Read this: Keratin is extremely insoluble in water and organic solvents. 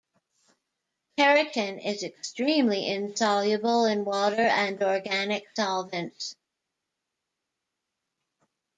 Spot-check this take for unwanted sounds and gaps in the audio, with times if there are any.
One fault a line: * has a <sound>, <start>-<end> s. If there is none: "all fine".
all fine